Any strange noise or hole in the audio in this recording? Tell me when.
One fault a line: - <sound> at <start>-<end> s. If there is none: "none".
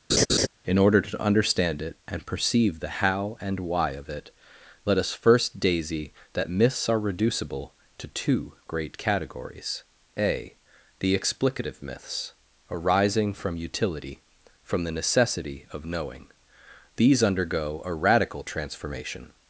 - laugh at 0.1-0.5 s